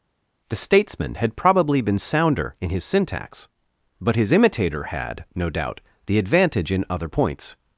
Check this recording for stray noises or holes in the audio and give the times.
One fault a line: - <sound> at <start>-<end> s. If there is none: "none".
none